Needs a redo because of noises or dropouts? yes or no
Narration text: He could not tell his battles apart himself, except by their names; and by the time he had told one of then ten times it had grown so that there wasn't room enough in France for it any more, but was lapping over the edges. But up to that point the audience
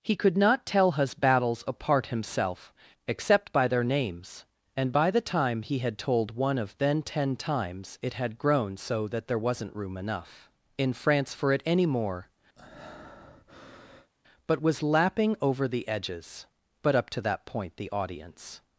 yes